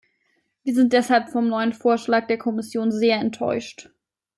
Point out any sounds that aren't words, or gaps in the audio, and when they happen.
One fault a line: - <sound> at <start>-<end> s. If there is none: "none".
none